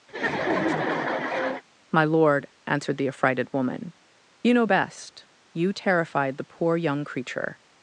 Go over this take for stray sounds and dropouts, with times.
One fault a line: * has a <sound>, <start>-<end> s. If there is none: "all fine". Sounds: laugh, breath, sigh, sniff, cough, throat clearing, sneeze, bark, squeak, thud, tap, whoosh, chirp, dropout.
* has a laugh, 0.1-1.6 s